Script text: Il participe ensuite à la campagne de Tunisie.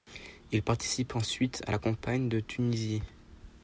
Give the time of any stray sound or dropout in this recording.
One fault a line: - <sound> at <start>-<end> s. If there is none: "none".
none